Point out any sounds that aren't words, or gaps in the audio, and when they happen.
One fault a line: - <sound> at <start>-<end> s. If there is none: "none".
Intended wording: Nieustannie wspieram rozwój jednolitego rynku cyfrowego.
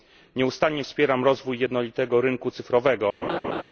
- laugh at 3.2-3.6 s